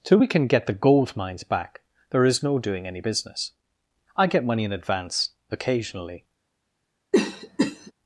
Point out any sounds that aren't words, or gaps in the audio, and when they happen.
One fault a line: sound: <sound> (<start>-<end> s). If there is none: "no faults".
sound: cough (7.1-7.9 s)